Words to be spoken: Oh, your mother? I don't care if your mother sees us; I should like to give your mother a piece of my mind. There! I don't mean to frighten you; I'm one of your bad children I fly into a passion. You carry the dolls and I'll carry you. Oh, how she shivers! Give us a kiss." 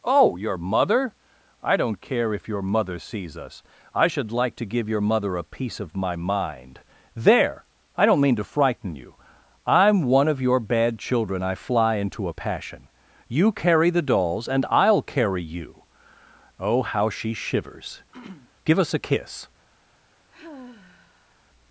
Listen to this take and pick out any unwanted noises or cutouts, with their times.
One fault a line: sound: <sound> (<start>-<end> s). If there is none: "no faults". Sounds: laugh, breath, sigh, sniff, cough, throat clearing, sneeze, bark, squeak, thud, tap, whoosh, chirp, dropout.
sound: throat clearing (18.1-18.5 s)
sound: sigh (20.3-21.4 s)